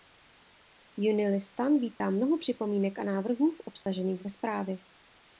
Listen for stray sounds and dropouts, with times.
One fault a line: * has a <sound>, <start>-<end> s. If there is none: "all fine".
* has a dropout, 2.0-2.0 s
* has a dropout, 3.8-3.9 s